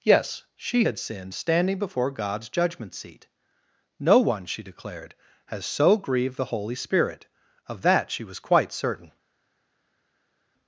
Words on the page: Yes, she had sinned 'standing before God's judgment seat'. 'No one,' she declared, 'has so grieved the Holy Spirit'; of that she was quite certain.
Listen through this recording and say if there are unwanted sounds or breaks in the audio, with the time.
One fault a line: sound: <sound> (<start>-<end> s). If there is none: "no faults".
no faults